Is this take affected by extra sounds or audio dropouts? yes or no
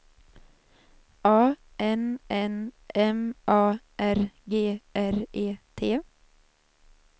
no